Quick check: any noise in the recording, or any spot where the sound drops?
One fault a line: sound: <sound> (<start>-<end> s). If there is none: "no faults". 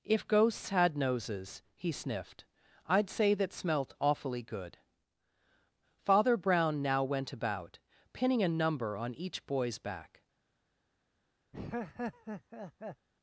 sound: laugh (11.5-13.1 s)